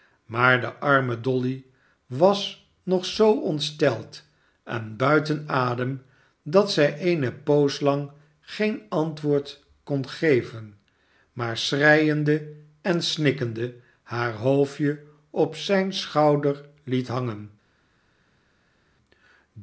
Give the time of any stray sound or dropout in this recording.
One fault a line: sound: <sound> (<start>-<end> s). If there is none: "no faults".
no faults